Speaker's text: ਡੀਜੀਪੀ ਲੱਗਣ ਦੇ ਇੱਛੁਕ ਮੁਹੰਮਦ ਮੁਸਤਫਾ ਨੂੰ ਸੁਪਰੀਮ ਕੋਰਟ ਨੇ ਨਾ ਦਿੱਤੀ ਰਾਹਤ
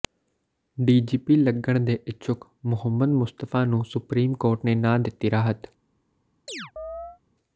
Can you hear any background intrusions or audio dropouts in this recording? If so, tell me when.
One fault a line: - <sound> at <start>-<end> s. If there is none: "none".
- chirp at 6.5-7.2 s